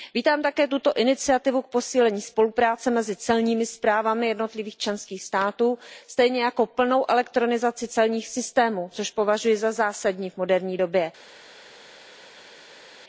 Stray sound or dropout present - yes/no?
no